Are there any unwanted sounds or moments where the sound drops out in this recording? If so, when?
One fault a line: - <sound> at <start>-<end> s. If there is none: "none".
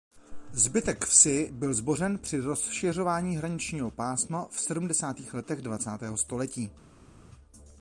none